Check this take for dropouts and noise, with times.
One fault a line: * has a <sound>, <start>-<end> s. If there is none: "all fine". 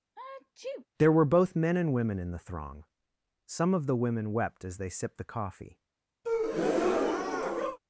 * has a sneeze, 0.2-0.9 s
* has a breath, 6.2-7.8 s